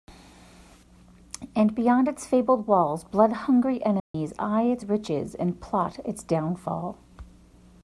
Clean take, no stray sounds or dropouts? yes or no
no